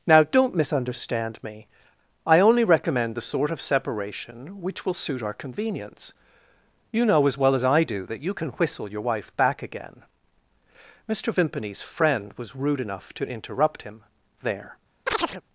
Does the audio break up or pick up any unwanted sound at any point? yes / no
yes